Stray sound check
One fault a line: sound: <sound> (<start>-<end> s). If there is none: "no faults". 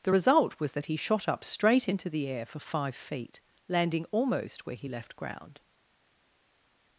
no faults